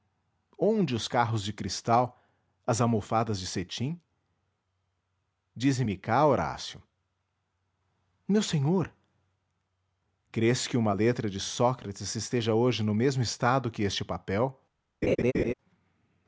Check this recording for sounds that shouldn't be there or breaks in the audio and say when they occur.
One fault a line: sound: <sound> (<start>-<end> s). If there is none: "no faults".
sound: laugh (15.0-15.5 s)